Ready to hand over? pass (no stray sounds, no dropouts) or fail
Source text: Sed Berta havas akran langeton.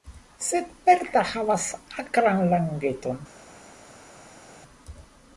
pass